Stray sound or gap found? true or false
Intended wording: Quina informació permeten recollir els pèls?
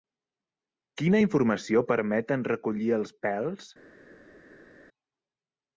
false